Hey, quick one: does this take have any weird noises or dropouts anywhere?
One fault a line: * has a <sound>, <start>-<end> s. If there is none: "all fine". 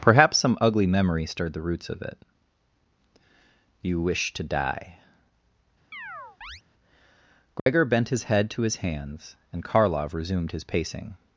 * has a chirp, 5.9-6.6 s
* has a dropout, 7.6-7.7 s